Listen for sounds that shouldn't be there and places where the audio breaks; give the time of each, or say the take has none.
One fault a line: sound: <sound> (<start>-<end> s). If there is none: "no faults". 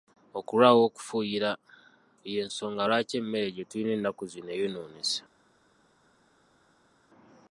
no faults